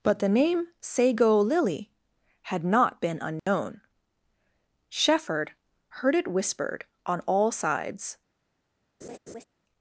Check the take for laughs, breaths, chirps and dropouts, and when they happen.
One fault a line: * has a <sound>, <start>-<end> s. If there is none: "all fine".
* has a dropout, 3.4-3.5 s
* has a laugh, 9.0-9.4 s